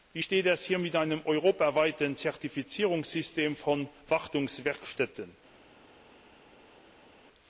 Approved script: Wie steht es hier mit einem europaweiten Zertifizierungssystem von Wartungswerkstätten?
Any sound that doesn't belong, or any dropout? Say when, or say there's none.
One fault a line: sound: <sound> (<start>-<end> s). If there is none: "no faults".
no faults